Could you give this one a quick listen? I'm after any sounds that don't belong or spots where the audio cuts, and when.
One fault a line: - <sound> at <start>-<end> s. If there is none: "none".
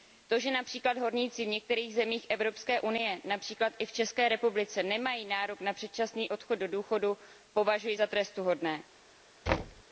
- thud at 9.5-9.8 s